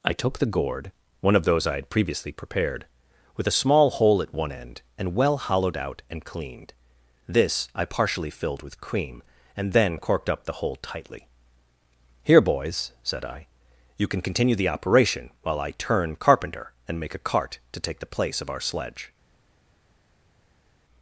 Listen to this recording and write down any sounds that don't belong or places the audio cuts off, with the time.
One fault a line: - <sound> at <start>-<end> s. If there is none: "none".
none